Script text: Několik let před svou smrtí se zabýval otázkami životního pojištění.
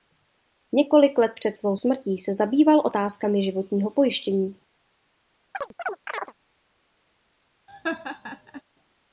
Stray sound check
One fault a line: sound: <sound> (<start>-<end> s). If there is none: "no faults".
sound: chirp (5.5-6.3 s)
sound: laugh (7.7-8.6 s)